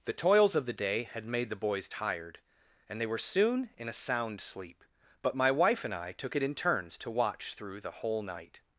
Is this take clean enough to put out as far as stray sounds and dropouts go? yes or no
yes